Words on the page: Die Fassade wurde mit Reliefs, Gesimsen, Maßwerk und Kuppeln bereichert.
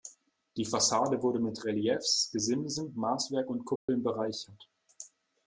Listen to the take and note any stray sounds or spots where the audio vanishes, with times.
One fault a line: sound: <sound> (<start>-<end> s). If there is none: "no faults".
sound: dropout (3.8-3.9 s)